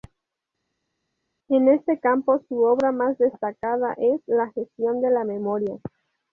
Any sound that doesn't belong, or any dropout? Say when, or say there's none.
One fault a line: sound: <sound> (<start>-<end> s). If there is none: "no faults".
no faults